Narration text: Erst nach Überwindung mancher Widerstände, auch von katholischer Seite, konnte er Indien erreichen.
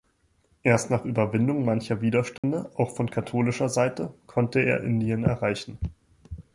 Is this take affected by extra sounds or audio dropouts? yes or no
yes